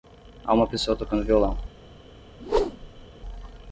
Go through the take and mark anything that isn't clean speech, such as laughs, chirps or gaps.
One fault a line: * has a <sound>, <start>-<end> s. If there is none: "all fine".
* has a whoosh, 2.4-3.1 s